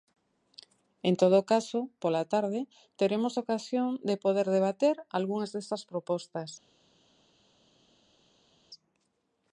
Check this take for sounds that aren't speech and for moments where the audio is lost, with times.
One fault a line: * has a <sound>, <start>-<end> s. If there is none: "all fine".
all fine